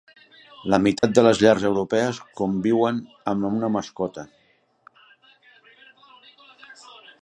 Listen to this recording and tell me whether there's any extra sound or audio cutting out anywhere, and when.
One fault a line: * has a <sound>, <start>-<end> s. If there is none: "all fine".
* has a dropout, 1.0-1.0 s